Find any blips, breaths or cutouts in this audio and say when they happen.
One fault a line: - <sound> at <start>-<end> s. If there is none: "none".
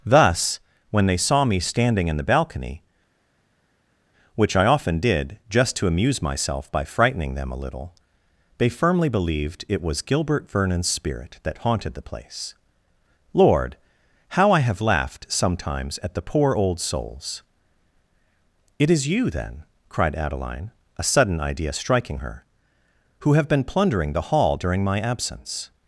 none